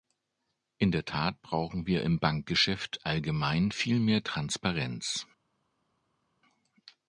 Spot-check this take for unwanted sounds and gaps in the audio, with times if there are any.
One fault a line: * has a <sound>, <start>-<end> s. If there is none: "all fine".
all fine